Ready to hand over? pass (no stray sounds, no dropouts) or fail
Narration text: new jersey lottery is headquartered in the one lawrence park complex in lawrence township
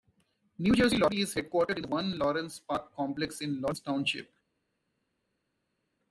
pass